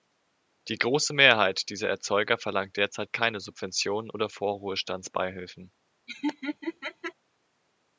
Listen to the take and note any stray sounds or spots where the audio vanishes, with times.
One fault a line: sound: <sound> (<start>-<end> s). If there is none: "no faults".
sound: laugh (6.1-7.1 s)